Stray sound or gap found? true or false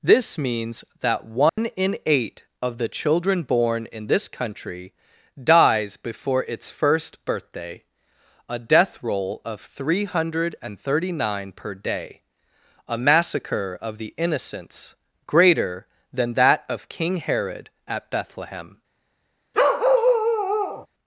true